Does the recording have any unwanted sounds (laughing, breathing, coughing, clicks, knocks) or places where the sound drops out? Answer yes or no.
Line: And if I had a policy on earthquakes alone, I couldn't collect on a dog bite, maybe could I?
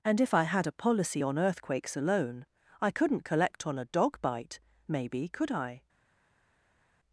no